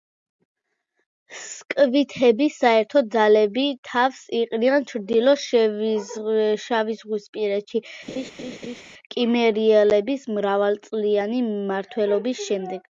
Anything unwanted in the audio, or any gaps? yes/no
yes